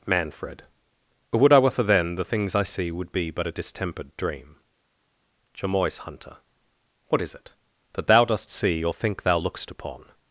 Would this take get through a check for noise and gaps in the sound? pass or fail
pass